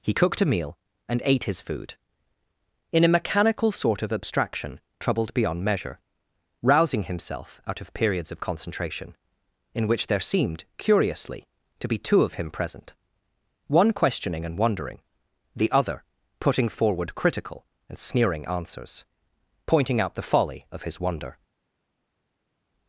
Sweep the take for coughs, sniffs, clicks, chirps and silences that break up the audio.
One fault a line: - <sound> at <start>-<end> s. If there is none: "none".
none